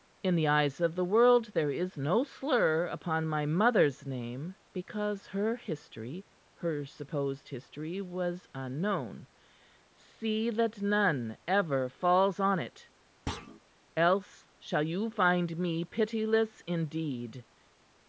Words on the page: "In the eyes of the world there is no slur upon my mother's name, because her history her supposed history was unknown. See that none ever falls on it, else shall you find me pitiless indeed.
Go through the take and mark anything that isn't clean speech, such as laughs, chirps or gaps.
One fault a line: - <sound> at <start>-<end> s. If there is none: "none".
- thud at 13.3-13.6 s